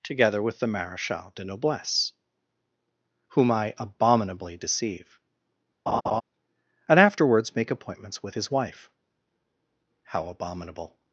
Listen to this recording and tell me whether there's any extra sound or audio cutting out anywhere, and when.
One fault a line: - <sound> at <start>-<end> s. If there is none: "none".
- laugh at 5.9-6.2 s